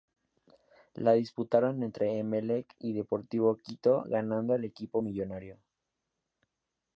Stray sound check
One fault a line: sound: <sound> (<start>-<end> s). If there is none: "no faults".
no faults